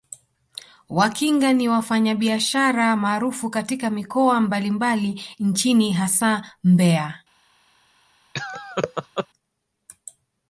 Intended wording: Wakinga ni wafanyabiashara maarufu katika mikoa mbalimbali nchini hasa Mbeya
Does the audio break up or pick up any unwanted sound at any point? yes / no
yes